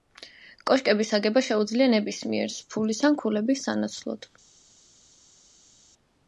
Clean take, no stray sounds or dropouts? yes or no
yes